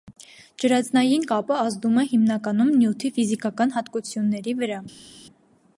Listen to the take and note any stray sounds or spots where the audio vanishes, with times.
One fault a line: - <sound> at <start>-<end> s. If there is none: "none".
none